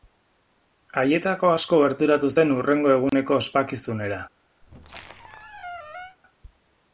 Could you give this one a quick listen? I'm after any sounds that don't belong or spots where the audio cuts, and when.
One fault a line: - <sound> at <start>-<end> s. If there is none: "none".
- dropout at 3.1-3.1 s
- squeak at 4.6-6.2 s